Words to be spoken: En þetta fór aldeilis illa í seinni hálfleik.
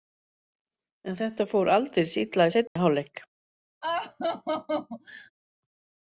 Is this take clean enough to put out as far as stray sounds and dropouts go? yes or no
no